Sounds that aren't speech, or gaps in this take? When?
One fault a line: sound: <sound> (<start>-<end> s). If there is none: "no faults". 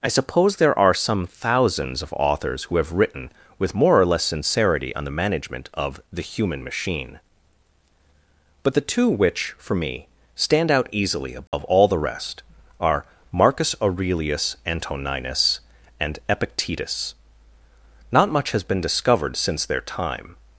sound: dropout (11.5-11.5 s)